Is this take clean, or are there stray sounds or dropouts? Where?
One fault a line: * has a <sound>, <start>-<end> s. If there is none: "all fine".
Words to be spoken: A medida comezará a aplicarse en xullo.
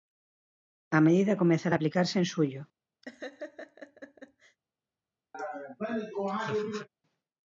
* has a laugh, 3.0-4.6 s
* has a laugh, 5.3-6.9 s